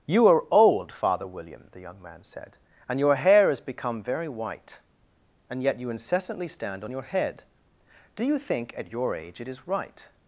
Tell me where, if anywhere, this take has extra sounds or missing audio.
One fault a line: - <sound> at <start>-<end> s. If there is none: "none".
none